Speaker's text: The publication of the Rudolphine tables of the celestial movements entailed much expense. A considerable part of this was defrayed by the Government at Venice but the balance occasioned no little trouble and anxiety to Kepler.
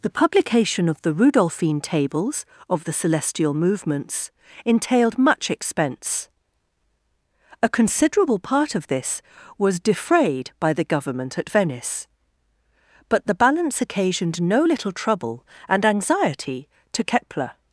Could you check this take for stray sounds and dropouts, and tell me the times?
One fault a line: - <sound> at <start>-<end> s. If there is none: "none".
none